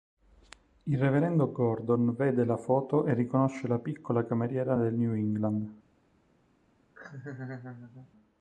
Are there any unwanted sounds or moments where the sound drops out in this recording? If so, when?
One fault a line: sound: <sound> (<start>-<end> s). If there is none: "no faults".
sound: laugh (6.9-8.1 s)